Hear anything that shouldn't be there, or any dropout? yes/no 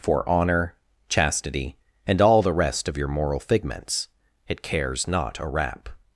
no